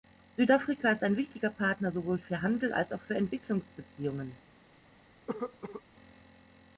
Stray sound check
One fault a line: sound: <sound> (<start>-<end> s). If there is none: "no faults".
sound: cough (5.3-5.8 s)